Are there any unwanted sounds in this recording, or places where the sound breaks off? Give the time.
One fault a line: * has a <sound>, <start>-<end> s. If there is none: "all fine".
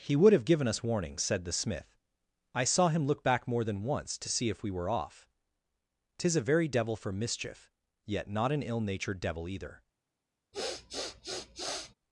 * has a sniff, 10.5-11.9 s